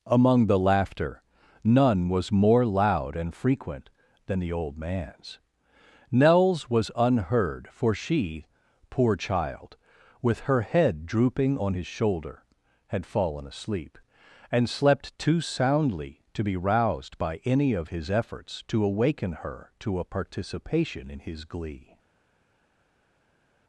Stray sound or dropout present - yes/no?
no